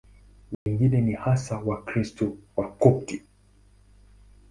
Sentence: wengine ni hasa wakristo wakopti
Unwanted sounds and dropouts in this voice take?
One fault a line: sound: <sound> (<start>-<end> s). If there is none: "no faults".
sound: dropout (0.5-0.7 s)